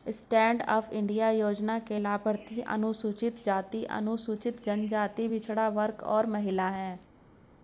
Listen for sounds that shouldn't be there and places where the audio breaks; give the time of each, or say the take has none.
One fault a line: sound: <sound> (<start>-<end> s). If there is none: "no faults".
no faults